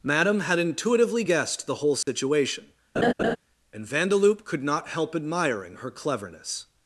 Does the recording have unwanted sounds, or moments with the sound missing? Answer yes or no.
yes